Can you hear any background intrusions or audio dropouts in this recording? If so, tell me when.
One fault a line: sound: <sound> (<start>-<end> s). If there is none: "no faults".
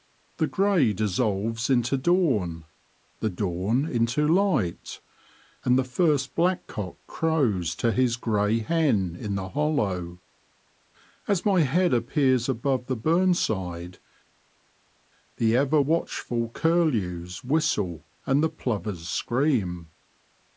no faults